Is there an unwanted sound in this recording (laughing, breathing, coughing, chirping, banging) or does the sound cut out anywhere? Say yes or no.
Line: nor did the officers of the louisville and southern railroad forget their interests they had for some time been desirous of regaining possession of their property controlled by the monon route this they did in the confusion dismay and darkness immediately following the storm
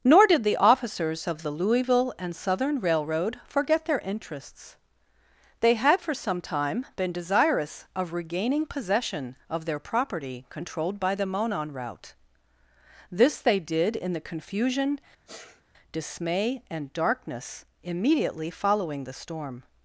yes